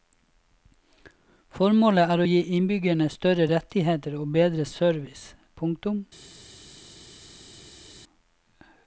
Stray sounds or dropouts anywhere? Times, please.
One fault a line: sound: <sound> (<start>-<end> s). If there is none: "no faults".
no faults